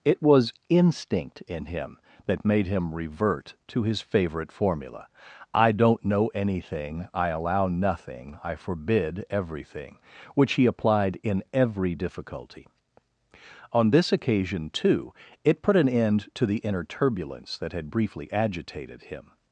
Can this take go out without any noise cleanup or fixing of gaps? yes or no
yes